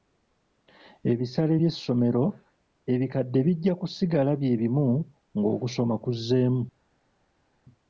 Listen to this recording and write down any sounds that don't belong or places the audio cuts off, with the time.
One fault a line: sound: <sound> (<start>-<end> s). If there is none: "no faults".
no faults